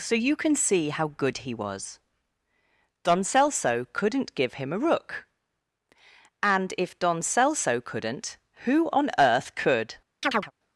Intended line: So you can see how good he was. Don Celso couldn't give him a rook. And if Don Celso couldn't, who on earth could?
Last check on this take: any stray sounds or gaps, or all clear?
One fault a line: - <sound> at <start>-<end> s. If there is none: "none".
- chirp at 10.2-10.5 s